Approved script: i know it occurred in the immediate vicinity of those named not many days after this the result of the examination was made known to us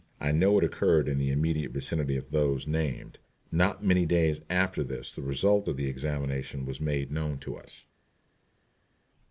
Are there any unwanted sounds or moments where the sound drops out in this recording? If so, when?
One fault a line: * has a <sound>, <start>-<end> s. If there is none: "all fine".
all fine